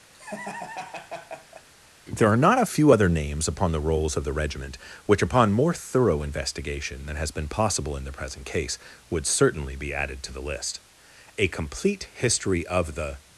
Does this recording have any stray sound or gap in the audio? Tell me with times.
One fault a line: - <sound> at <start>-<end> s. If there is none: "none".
- laugh at 0.1-1.7 s